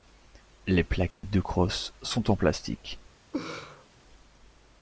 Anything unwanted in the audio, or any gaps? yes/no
yes